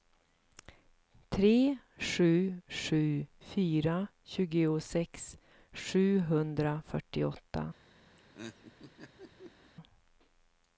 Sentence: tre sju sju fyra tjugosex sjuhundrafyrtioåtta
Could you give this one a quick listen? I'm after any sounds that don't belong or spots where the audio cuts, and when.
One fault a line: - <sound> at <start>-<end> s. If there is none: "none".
- laugh at 8.2-9.7 s